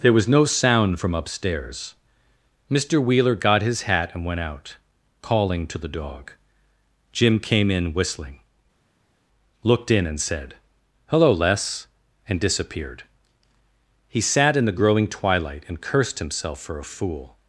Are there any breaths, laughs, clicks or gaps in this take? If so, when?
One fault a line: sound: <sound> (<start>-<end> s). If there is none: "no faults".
no faults